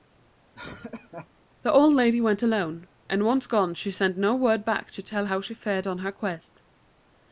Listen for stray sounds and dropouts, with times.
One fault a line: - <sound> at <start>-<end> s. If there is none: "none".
- laugh at 0.5-1.3 s